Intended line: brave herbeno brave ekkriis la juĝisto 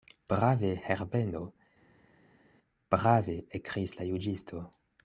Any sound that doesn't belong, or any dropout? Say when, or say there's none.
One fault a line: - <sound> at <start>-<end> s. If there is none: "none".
none